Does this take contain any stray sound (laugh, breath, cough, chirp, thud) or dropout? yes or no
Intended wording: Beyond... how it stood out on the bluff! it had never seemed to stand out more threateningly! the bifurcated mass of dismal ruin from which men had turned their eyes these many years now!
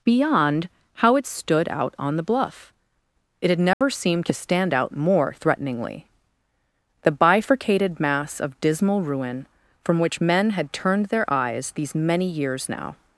yes